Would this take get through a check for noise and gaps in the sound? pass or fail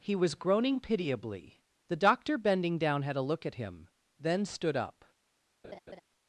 fail